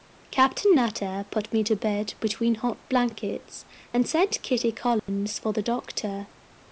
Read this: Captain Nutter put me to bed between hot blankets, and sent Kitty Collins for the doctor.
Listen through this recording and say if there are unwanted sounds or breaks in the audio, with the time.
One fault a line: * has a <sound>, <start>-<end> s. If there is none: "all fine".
* has a dropout, 5.0-5.1 s